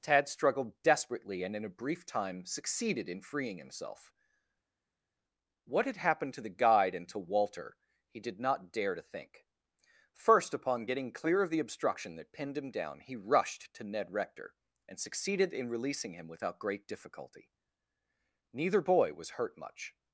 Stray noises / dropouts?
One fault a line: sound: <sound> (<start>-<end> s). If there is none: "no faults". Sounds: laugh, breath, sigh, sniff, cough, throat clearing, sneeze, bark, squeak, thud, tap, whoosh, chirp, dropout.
no faults